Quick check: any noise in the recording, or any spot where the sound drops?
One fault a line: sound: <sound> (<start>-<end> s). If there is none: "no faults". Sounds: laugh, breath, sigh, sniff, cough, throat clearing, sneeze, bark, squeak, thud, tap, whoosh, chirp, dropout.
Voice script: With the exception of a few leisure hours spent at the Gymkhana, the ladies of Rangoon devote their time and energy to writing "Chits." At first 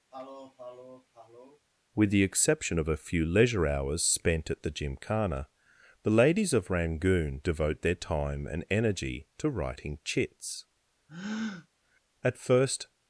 sound: sniff (0.1-1.6 s)
sound: breath (11.1-11.7 s)